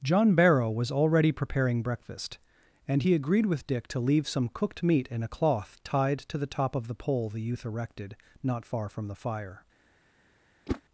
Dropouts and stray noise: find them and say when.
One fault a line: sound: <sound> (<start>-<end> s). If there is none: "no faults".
sound: whoosh (10.7-10.8 s)